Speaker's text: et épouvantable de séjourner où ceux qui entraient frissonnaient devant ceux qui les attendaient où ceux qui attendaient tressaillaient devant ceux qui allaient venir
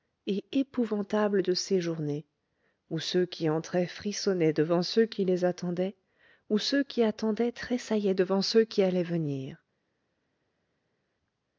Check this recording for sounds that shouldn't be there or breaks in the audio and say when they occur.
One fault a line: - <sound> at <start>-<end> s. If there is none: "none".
none